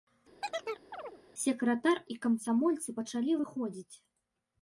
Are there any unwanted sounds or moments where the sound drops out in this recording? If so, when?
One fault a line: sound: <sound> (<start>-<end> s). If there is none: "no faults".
sound: chirp (0.4-1.2 s)